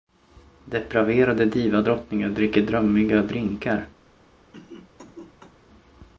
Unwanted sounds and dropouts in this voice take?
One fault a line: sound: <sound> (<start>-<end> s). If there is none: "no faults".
sound: cough (4.5-5.5 s)